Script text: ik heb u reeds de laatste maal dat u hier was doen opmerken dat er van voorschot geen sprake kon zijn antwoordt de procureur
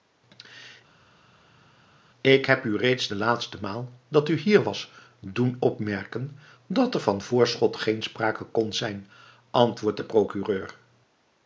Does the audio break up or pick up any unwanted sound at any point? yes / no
no